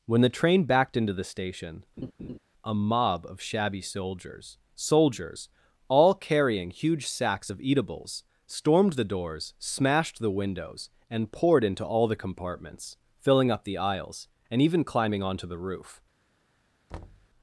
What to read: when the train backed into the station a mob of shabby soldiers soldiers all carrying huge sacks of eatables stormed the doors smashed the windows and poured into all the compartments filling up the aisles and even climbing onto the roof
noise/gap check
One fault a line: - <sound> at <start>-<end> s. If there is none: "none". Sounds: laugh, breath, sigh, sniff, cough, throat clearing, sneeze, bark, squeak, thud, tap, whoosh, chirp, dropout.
- laugh at 2.0-2.4 s
- thud at 16.9-17.3 s